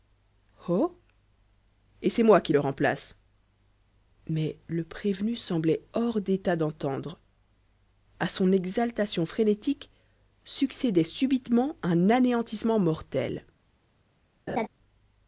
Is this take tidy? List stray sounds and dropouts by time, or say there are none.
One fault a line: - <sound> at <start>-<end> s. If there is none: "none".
- laugh at 14.5-14.7 s